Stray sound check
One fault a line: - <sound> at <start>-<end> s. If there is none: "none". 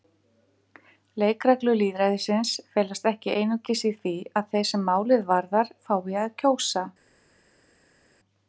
none